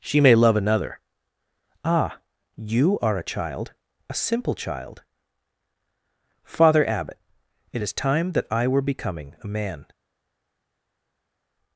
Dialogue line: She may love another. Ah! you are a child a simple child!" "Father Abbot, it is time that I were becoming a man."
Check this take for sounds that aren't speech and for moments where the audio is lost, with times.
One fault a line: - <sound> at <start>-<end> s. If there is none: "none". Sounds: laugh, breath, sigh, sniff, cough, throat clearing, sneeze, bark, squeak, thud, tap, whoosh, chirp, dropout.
none